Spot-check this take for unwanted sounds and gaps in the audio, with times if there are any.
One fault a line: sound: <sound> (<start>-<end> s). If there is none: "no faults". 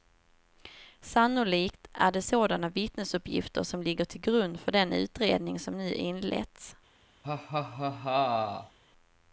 sound: laugh (7.2-8.8 s)